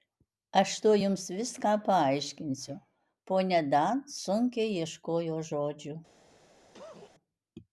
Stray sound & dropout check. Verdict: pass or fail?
fail